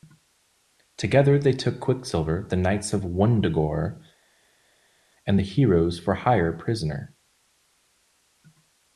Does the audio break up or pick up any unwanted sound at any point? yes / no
no